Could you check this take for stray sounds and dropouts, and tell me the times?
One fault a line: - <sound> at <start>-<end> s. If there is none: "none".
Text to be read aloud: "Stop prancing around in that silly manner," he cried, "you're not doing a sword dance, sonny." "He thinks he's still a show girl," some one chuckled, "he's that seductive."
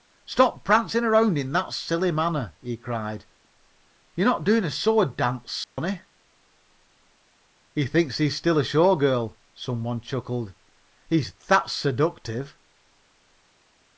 - dropout at 5.6-5.8 s